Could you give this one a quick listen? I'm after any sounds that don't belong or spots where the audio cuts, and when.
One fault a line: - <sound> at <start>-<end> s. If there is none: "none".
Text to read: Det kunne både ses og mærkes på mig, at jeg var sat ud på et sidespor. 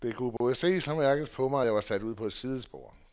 - dropout at 0.4-0.4 s